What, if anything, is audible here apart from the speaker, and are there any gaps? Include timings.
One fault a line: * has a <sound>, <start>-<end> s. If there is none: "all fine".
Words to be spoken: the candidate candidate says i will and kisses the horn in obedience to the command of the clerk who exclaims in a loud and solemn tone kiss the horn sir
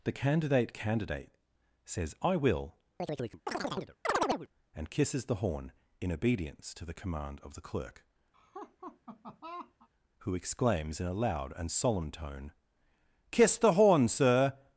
* has a chirp, 3.0-4.5 s
* has a laugh, 8.3-9.9 s